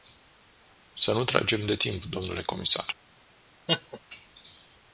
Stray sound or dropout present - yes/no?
yes